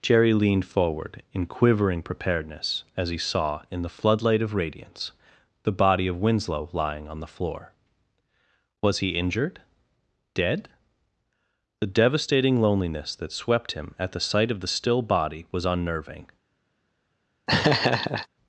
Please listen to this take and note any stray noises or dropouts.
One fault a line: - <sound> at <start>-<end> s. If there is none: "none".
- laugh at 17.5-18.3 s